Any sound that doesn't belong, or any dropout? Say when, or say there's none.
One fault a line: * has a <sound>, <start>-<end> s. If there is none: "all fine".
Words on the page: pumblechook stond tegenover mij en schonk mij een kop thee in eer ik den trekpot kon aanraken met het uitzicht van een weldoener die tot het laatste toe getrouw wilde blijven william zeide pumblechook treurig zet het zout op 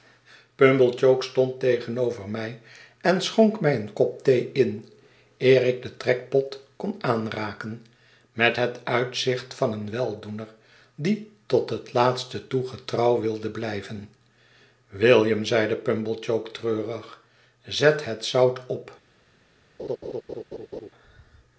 * has a laugh, 19.8-20.9 s